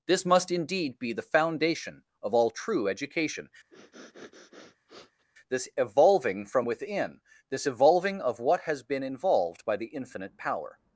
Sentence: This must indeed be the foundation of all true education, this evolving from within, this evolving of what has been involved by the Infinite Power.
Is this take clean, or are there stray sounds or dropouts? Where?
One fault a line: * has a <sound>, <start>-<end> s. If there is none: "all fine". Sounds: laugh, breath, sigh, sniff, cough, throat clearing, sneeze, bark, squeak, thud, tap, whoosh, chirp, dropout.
* has a sniff, 3.7-5.3 s